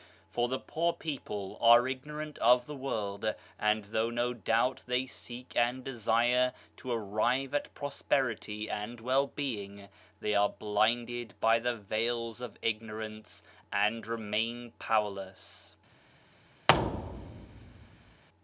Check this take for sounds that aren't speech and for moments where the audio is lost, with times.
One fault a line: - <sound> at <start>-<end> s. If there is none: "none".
- thud at 16.7-18.2 s